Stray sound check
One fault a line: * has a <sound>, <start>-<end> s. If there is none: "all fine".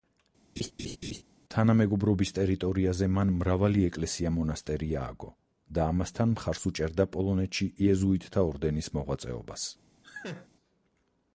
* has a laugh, 0.6-1.2 s
* has a laugh, 10.0-10.5 s